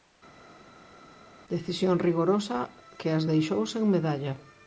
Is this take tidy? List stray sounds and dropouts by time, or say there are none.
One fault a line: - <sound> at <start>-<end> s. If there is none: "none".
none